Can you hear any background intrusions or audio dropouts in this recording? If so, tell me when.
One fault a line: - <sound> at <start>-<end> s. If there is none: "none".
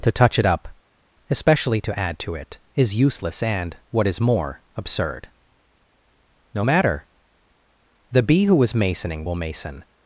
none